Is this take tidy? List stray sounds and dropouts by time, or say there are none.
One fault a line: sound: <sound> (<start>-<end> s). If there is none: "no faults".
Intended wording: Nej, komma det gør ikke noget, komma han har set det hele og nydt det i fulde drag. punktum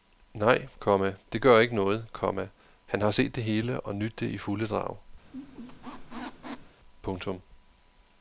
sound: squeak (5.2-6.8 s)